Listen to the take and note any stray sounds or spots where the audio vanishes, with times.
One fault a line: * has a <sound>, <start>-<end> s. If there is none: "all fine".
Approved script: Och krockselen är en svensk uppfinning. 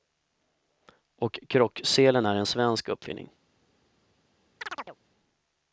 * has a chirp, 4.6-5.0 s